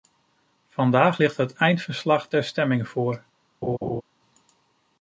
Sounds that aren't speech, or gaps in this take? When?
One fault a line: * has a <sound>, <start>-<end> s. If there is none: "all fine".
* has a laugh, 3.6-4.0 s